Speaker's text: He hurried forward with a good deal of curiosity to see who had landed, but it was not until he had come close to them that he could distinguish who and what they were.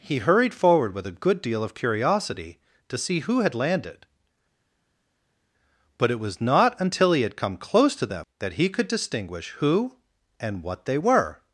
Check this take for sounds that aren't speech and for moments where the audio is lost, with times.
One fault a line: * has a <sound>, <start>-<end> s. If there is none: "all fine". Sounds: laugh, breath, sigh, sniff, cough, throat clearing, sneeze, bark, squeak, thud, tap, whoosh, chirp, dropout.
all fine